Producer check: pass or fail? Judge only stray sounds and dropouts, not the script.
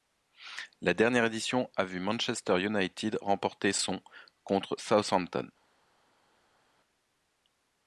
pass